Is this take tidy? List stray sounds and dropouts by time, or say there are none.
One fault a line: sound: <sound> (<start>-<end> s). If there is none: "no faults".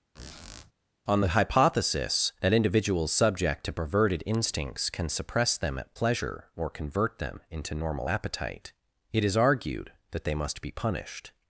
sound: squeak (0.1-0.7 s)